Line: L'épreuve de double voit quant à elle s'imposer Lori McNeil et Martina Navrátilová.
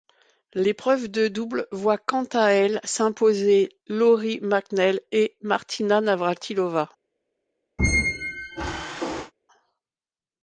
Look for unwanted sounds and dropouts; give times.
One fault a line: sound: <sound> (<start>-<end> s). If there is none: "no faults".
sound: squeak (7.8-9.3 s)